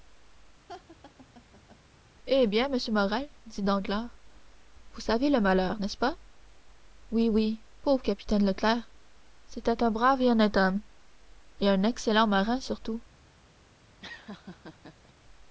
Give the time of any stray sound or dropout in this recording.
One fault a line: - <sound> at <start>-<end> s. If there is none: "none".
- laugh at 0.7-1.8 s
- laugh at 14.0-15.1 s